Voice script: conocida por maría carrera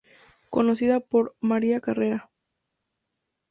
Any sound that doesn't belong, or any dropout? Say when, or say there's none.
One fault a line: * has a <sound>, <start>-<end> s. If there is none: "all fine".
all fine